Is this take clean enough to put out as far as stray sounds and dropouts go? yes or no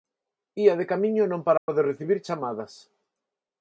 no